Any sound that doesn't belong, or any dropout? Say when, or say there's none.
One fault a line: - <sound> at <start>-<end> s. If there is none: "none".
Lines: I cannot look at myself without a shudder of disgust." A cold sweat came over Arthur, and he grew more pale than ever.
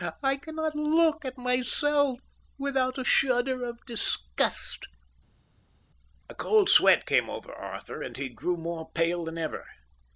none